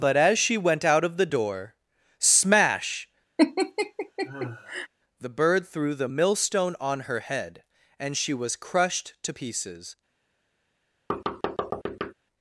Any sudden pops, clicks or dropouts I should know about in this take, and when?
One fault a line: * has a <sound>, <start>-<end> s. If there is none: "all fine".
* has a laugh, 3.4-4.9 s
* has a thud, 11.1-12.1 s